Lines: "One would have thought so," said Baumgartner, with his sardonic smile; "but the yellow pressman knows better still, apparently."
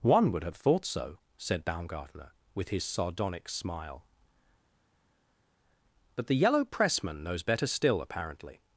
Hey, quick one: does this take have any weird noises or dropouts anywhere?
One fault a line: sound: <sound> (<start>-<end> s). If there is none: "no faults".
no faults